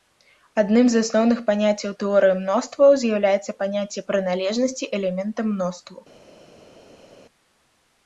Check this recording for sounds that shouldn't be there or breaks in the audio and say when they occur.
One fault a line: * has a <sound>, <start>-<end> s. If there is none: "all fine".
all fine